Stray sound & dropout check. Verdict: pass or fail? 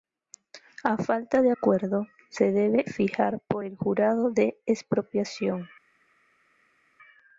pass